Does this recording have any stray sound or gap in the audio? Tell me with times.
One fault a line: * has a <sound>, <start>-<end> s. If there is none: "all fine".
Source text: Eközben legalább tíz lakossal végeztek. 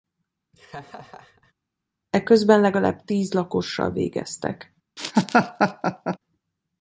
* has a laugh, 0.5-1.5 s
* has a laugh, 5.0-6.2 s